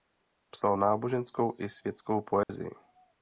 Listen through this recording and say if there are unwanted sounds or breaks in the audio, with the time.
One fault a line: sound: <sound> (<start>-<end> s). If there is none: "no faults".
sound: dropout (2.4-2.5 s)